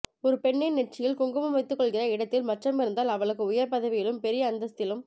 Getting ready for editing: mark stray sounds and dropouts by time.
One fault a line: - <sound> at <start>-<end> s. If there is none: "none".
none